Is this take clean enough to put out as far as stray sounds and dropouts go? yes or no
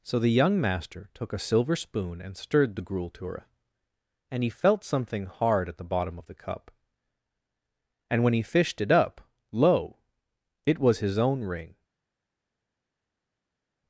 yes